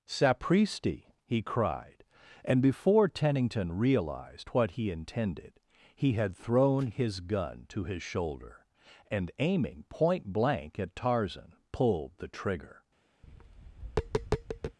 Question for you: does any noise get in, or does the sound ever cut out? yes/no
yes